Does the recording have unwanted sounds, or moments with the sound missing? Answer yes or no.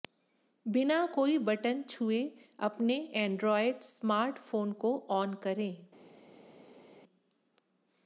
no